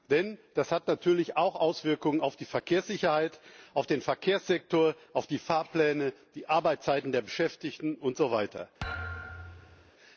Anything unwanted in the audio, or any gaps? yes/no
yes